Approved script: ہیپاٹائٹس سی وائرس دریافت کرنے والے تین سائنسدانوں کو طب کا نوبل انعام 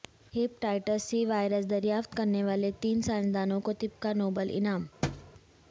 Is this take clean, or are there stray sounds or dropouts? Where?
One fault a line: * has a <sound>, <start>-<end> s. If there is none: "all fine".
* has a thud, 5.0-5.3 s